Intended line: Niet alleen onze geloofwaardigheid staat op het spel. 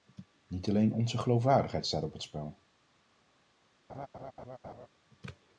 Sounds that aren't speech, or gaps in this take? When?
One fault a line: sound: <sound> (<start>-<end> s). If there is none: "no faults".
sound: laugh (3.9-4.9 s)